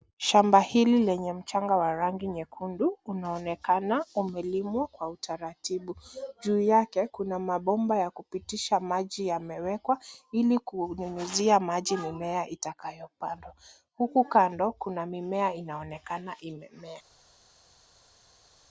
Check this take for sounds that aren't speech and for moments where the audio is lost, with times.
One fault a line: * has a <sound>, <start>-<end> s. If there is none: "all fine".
all fine